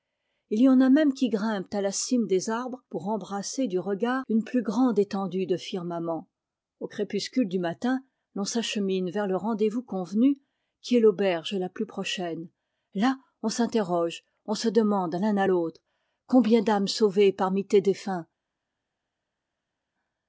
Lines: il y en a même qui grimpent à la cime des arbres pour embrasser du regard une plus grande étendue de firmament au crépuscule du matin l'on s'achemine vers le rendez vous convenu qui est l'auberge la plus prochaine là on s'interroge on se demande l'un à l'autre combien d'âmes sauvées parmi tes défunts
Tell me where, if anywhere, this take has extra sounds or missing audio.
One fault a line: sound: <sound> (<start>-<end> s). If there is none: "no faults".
no faults